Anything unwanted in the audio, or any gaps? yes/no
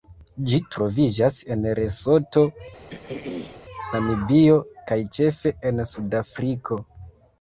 yes